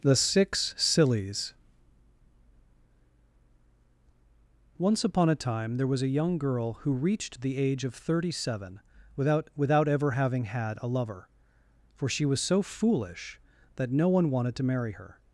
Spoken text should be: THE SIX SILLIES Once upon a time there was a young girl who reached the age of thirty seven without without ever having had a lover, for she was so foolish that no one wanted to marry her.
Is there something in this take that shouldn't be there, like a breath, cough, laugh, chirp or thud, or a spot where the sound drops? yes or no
no